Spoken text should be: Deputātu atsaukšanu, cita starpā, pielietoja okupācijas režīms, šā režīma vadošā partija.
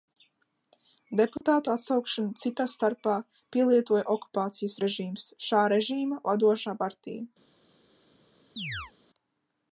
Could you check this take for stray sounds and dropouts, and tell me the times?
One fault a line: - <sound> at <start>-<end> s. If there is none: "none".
- dropout at 1.4-1.4 s
- chirp at 8.6-8.9 s